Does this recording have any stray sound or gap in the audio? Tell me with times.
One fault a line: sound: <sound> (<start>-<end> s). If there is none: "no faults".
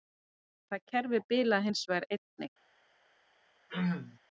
sound: throat clearing (3.7-4.2 s)